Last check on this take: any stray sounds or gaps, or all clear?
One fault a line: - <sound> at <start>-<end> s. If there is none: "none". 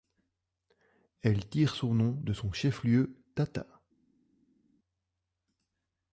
none